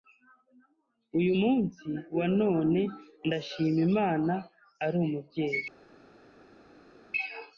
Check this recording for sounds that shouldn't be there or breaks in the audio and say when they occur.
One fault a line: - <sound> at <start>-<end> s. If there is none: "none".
none